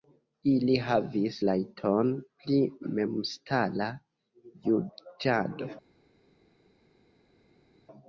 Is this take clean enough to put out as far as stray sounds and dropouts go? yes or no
yes